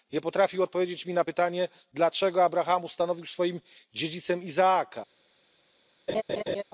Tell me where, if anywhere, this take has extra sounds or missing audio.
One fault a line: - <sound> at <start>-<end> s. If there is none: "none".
- laugh at 6.1-6.6 s